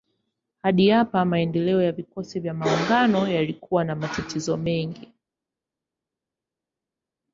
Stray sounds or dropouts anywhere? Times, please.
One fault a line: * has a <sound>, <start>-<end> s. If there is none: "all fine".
all fine